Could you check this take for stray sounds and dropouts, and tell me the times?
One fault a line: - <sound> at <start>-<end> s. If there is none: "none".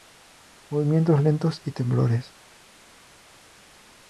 none